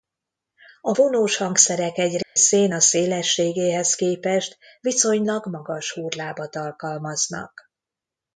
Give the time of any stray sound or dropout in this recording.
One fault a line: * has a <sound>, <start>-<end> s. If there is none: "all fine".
* has a dropout, 2.2-2.4 s